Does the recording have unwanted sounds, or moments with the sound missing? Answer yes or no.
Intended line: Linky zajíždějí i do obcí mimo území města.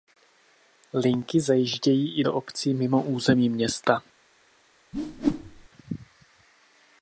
yes